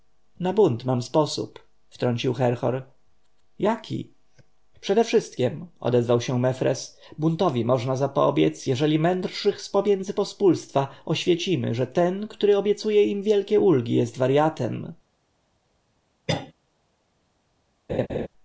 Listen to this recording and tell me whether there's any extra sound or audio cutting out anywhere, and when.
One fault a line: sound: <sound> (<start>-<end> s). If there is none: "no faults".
sound: cough (16.3-16.5 s)
sound: laugh (17.9-18.3 s)